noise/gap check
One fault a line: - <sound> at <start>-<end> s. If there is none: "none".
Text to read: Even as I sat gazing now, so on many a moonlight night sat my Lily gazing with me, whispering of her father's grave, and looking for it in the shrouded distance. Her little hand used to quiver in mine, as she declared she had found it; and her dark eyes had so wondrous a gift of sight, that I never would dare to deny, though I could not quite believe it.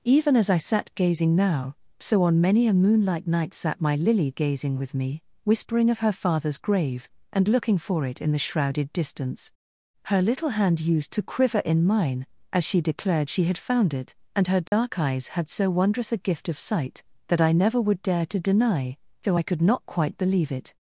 - dropout at 14.7-14.7 s